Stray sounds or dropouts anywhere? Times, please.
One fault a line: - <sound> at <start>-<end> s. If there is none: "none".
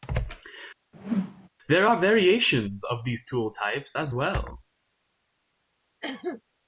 - whoosh at 0.9-1.5 s
- cough at 6.0-6.4 s